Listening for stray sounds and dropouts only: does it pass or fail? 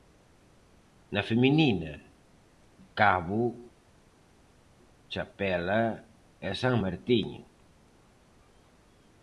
pass